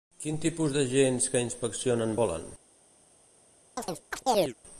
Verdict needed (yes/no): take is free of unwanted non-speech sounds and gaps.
no